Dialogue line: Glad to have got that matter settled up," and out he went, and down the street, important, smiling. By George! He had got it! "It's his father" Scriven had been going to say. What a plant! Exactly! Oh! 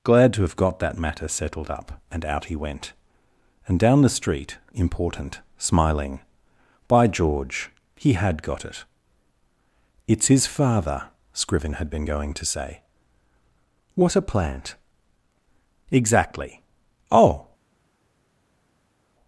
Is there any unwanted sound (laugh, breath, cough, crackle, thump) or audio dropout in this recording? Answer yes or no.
no